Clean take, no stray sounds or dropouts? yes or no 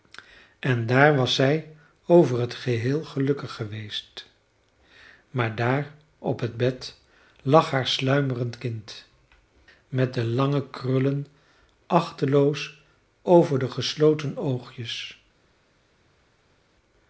yes